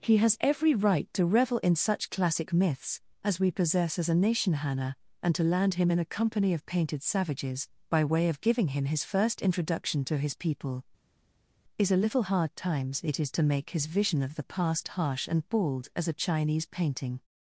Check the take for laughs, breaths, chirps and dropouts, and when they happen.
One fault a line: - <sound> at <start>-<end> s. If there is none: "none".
none